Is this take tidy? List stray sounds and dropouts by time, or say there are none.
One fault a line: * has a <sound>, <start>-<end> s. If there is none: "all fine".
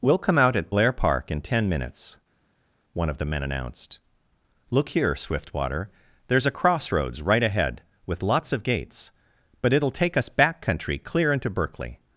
all fine